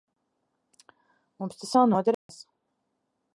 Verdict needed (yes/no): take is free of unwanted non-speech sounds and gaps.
no